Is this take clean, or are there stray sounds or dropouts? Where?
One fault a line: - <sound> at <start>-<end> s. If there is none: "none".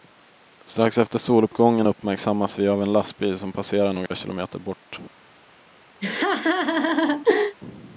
- dropout at 4.1-4.1 s
- laugh at 6.0-7.6 s